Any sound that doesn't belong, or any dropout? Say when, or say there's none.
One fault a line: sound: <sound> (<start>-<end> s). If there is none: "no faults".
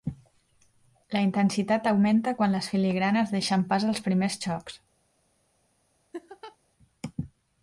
sound: laugh (6.1-6.6 s)